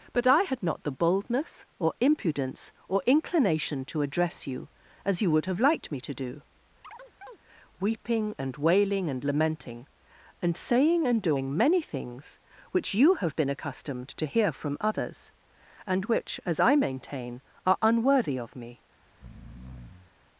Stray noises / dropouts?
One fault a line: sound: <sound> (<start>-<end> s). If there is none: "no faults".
sound: chirp (6.8-7.4 s)
sound: breath (19.1-20.1 s)